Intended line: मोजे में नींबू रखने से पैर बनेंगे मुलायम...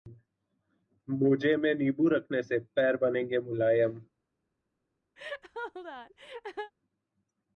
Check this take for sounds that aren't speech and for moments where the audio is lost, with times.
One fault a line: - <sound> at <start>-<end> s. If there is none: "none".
- laugh at 5.2-6.7 s